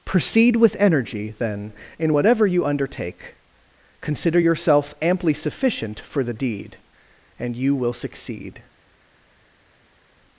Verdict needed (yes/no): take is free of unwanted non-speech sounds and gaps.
yes